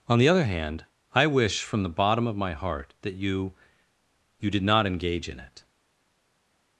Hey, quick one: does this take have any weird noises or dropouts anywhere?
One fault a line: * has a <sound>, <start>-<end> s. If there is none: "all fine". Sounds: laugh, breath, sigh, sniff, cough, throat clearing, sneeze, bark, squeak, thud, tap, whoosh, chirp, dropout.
all fine